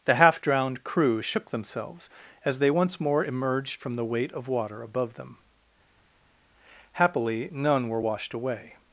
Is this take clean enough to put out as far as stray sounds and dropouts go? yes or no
yes